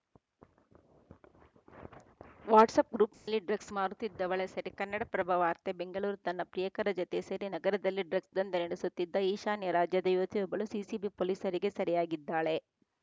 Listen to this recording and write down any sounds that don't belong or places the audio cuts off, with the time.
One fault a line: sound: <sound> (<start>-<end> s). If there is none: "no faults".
sound: dropout (3.1-3.3 s)